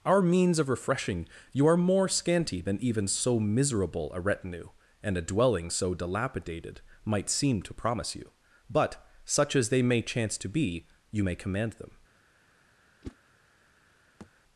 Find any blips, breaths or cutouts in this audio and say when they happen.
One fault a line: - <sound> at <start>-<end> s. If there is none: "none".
- whoosh at 13.0-13.2 s
- thud at 14.2-14.3 s